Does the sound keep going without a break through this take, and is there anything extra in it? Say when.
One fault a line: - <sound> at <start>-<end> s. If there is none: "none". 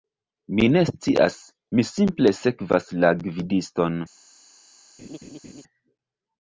- laugh at 5.0-5.6 s